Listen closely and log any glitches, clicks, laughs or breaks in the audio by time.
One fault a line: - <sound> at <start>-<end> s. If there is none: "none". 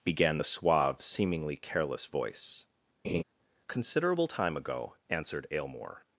- laugh at 3.0-3.2 s